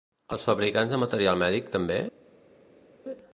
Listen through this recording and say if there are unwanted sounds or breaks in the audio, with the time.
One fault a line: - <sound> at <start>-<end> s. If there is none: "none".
none